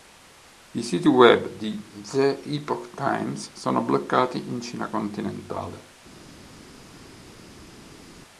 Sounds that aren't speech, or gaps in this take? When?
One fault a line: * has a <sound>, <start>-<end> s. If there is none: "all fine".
all fine